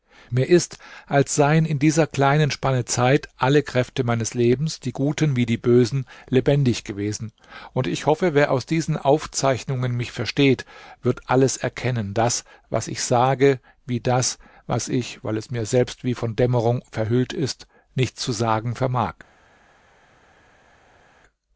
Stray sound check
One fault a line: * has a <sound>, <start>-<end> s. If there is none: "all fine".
all fine